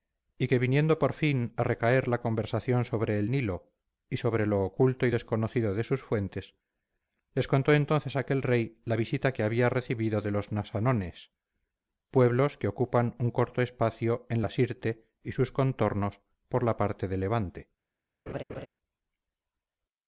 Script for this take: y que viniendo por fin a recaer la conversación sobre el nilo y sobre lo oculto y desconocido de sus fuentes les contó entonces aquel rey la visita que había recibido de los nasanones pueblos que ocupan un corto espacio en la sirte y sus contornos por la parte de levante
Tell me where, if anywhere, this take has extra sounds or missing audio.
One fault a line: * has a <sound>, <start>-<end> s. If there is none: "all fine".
* has a laugh, 18.3-18.7 s